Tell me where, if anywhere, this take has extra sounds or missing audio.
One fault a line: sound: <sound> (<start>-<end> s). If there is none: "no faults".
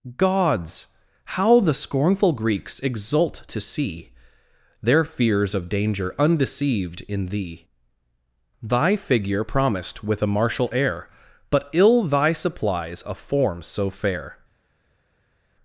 no faults